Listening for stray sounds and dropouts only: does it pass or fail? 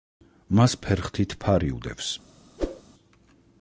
fail